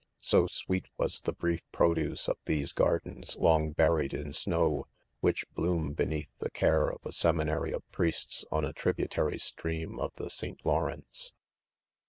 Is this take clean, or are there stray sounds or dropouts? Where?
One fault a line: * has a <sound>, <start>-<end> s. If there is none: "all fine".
all fine